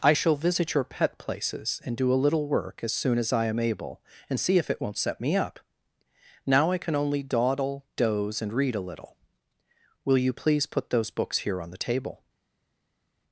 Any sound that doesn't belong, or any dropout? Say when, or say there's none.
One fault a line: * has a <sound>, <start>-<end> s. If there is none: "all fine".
all fine